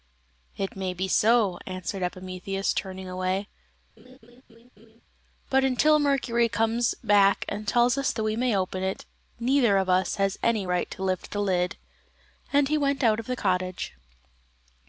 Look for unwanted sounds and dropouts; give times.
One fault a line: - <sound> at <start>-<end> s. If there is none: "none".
- laugh at 4.0-5.0 s